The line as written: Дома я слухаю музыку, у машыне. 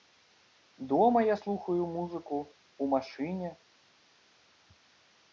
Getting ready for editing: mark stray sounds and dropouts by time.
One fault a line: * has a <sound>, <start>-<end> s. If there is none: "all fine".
all fine